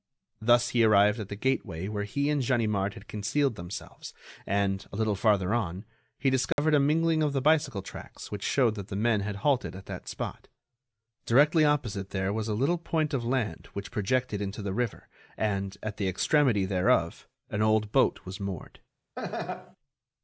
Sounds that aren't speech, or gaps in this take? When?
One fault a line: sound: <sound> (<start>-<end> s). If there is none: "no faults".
sound: dropout (6.5-6.6 s)
sound: laugh (19.2-19.8 s)